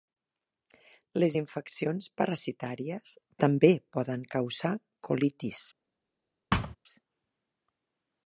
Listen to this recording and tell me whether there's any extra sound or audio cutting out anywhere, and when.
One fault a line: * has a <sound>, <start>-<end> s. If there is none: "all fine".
* has a thud, 6.5-6.8 s